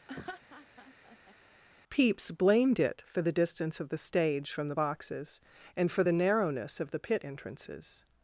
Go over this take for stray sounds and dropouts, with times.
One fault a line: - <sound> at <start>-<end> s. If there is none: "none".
- laugh at 0.1-1.3 s